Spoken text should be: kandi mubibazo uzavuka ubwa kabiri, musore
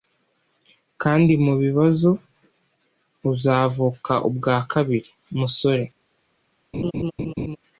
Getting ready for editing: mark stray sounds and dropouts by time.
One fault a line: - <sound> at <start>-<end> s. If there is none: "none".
- laugh at 6.7-7.6 s